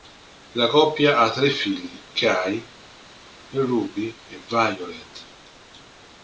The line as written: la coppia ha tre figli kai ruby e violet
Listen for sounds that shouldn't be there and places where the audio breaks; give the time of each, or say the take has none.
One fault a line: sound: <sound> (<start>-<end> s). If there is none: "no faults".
no faults